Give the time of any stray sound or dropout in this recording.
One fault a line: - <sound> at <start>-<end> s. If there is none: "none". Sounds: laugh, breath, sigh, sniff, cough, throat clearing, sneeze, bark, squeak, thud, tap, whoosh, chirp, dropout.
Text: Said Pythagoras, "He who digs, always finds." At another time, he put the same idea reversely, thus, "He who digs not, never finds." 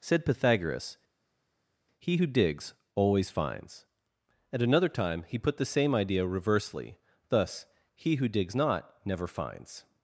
none